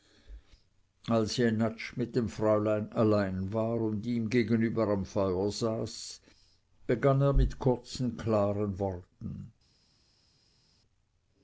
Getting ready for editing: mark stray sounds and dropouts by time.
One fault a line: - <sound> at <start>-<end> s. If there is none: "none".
none